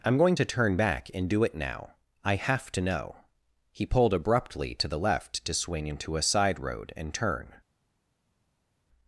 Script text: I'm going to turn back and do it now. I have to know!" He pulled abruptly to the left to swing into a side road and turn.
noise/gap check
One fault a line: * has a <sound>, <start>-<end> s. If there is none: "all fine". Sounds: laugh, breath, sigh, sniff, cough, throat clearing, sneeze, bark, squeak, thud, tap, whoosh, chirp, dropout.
all fine